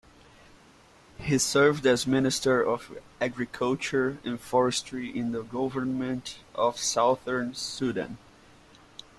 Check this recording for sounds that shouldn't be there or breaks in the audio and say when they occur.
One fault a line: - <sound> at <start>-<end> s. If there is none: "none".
none